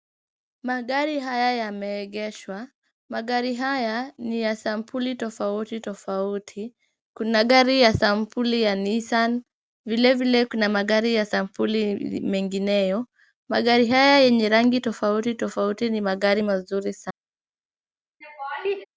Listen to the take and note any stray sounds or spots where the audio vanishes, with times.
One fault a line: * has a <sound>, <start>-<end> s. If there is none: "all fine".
* has a laugh, 18.2-18.9 s